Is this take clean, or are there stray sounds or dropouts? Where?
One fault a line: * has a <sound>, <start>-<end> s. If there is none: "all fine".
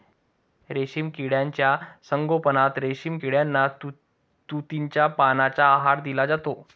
all fine